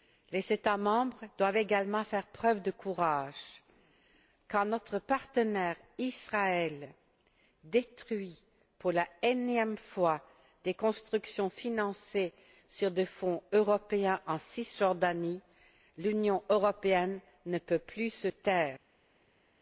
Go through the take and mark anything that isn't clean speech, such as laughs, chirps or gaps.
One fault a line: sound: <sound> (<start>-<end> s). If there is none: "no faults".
no faults